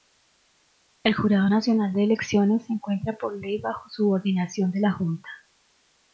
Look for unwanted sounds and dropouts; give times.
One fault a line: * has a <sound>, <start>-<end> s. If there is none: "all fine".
all fine